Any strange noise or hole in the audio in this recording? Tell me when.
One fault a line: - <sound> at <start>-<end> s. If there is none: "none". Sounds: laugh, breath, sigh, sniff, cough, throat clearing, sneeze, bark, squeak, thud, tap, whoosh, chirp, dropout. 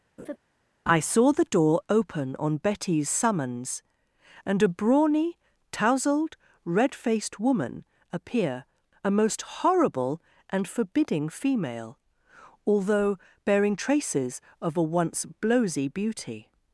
- laugh at 0.2-0.4 s